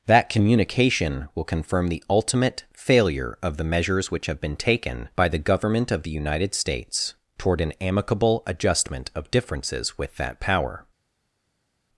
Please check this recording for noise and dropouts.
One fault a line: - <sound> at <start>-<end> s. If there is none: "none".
none